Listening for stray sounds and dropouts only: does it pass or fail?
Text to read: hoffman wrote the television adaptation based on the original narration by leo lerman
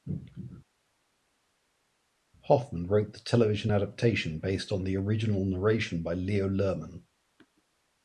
pass